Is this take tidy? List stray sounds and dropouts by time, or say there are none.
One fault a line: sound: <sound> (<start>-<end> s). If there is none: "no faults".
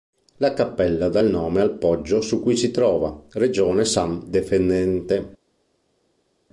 no faults